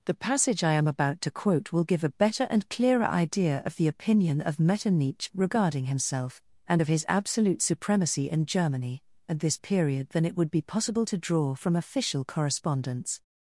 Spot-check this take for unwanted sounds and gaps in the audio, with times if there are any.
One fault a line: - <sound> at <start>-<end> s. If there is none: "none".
none